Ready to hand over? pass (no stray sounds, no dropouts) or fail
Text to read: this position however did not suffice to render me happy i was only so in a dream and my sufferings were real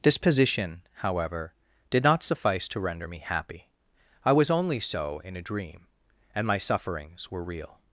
pass